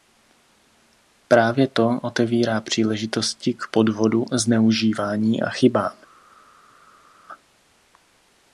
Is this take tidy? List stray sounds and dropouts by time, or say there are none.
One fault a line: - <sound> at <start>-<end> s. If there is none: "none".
none